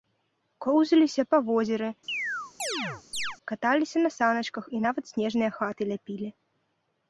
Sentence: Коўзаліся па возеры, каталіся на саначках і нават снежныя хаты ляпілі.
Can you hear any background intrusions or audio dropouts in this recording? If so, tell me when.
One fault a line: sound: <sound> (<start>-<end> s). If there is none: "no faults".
sound: chirp (2.1-3.4 s)